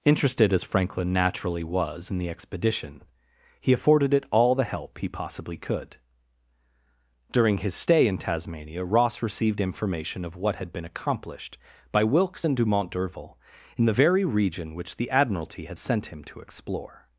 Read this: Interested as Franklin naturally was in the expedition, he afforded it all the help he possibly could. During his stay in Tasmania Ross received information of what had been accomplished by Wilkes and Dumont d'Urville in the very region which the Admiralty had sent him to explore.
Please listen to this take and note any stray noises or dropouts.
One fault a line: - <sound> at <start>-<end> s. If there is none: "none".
none